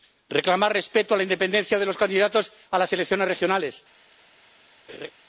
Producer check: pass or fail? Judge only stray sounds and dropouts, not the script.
fail